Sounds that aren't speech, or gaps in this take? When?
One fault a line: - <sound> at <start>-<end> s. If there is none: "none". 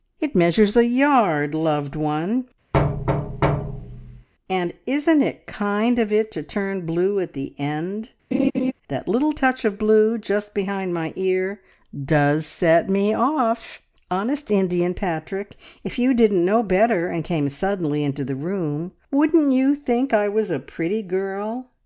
- thud at 2.7-4.3 s
- laugh at 8.3-8.7 s